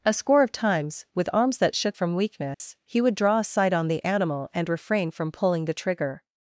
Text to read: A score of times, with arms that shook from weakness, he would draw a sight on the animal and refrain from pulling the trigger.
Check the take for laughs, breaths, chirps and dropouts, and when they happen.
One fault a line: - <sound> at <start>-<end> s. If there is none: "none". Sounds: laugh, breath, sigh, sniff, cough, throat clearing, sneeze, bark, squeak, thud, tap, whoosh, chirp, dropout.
- dropout at 2.5-2.6 s